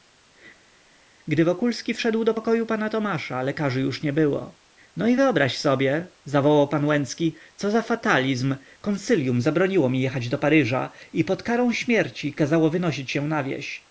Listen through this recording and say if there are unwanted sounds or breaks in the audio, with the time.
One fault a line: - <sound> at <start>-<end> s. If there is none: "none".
none